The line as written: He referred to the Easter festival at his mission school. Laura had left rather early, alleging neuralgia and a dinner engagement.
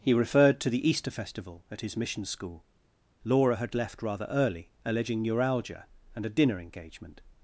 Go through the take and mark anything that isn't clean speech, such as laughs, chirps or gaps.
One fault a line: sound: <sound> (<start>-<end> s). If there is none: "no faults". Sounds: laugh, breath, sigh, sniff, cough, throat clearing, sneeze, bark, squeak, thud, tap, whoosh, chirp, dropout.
no faults